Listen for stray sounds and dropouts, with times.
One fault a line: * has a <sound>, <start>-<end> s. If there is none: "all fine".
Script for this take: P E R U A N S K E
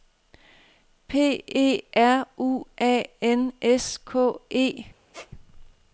* has a squeak, 5.1-5.3 s